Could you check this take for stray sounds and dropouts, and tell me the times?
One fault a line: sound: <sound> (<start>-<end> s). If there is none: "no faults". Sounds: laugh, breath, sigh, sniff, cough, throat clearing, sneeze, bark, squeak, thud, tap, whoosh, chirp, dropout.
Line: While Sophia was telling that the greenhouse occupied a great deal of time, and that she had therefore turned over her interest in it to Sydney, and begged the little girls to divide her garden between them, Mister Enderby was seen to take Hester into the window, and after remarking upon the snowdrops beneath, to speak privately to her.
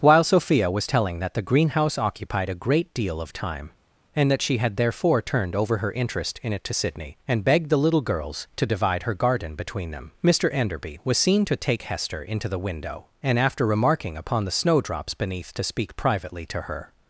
no faults